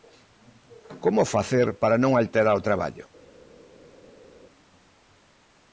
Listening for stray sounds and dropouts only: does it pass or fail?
pass